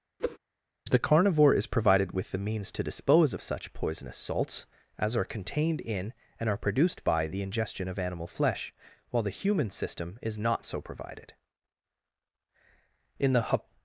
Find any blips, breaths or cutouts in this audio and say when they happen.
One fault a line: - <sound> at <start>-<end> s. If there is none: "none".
- whoosh at 0.2-0.4 s